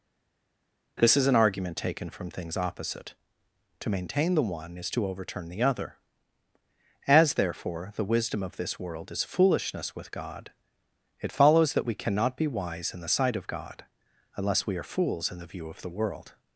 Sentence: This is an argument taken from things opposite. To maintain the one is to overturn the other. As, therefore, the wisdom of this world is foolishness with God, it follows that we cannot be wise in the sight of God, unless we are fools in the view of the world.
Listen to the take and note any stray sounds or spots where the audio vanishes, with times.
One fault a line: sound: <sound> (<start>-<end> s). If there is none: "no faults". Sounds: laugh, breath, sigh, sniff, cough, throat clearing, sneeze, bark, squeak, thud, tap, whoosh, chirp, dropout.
no faults